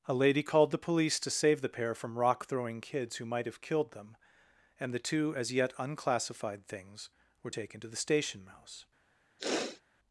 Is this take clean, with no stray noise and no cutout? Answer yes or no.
no